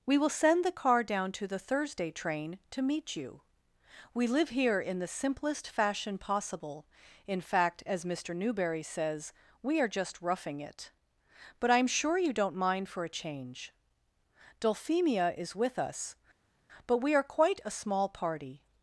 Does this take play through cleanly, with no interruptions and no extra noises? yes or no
yes